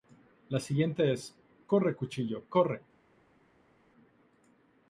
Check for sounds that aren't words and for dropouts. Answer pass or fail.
pass